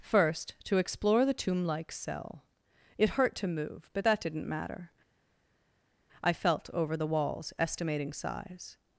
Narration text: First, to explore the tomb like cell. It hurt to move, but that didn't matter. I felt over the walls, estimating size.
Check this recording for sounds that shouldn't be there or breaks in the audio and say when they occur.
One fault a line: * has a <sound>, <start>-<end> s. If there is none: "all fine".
all fine